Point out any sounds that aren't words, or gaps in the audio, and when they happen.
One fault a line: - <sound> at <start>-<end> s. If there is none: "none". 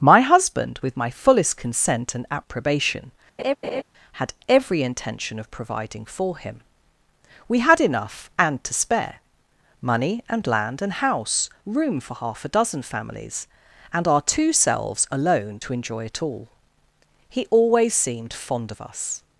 - laugh at 3.4-3.8 s